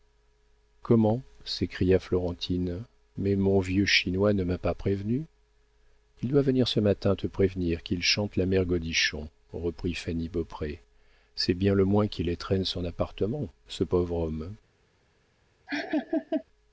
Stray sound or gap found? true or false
true